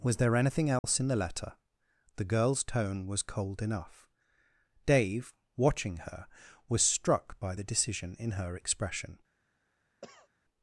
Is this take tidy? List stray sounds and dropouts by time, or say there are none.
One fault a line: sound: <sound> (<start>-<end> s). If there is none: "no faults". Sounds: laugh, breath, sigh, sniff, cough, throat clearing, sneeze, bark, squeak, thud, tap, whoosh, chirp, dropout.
sound: dropout (0.8-0.8 s)
sound: cough (10.0-10.3 s)